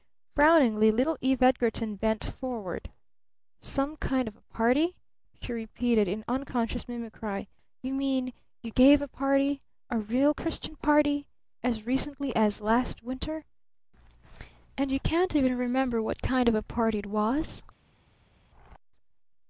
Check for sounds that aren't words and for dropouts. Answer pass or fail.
pass